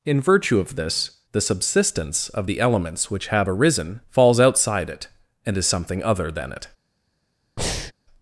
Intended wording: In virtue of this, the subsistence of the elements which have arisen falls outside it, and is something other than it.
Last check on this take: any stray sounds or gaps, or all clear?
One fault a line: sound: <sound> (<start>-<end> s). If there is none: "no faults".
sound: breath (7.6-7.9 s)